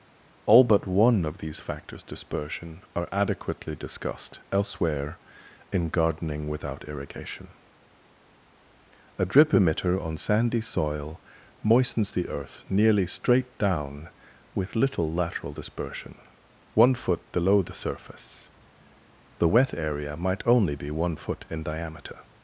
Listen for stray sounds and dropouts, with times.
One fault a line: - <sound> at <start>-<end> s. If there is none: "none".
none